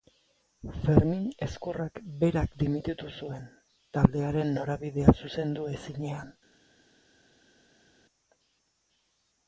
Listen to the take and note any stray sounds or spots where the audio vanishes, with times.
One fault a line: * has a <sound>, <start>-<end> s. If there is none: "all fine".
all fine